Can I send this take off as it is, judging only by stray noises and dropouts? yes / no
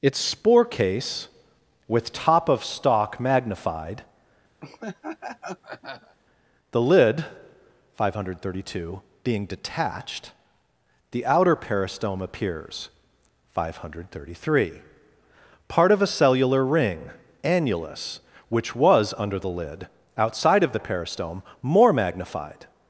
no